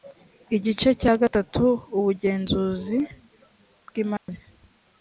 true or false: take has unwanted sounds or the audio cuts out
true